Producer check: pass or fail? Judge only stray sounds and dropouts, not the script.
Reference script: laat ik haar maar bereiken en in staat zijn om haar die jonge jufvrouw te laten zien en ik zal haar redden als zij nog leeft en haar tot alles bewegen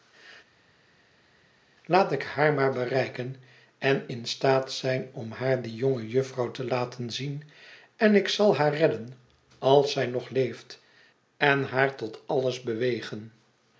pass